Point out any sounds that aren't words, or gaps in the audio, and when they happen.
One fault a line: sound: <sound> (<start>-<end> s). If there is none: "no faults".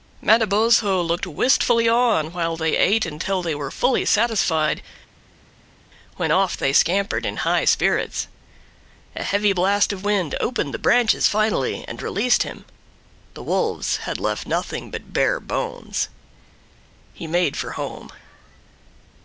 no faults